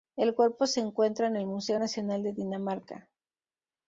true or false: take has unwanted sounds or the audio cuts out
false